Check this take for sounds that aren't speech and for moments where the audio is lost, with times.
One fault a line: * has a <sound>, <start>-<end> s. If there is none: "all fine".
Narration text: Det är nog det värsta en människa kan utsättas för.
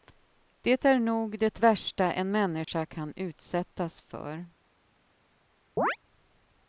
* has a dropout, 2.6-2.7 s
* has a chirp, 5.8-6.0 s